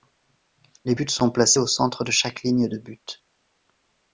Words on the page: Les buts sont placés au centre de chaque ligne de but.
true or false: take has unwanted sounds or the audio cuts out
false